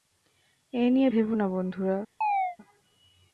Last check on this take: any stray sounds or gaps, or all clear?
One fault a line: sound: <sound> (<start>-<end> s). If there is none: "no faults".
sound: chirp (2.2-2.6 s)